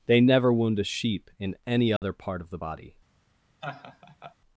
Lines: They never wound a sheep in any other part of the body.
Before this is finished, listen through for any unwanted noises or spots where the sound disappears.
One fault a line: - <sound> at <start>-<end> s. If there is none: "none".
- dropout at 2.0-2.0 s
- laugh at 3.6-4.4 s